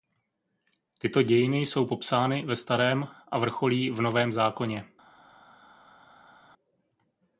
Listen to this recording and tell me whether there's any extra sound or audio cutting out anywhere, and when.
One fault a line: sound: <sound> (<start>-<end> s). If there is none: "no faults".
no faults